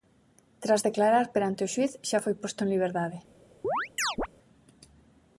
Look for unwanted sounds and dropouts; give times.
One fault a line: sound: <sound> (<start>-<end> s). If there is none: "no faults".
sound: chirp (3.6-4.3 s)